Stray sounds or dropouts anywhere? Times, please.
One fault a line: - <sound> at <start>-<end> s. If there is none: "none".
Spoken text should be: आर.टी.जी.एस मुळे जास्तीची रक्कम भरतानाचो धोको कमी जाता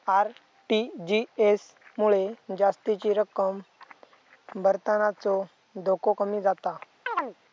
- chirp at 7.1-7.4 s